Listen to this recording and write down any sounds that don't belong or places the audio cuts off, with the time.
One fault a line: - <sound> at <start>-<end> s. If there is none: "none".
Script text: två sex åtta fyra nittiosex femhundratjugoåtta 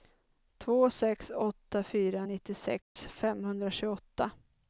- dropout at 2.8-3.0 s